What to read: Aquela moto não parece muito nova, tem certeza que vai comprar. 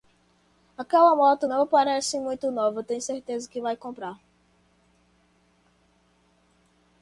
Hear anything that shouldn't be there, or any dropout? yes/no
no